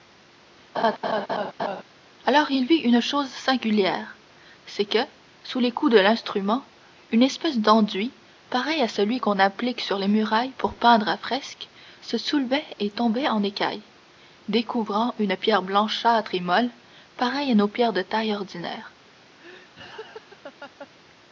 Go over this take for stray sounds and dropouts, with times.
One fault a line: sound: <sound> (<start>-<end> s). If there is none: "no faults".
sound: laugh (0.7-1.8 s)
sound: laugh (19.4-20.9 s)